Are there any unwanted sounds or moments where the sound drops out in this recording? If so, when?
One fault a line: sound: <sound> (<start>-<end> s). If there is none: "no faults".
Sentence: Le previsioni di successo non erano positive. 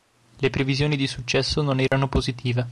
sound: dropout (1.9-1.9 s)